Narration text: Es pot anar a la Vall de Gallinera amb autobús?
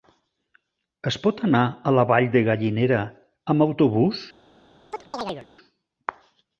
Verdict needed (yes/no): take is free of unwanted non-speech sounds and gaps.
no